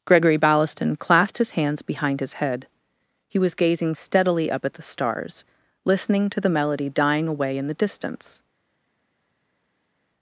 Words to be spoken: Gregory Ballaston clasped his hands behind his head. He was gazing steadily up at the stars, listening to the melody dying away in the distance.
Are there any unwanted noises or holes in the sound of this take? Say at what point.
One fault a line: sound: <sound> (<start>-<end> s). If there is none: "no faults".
no faults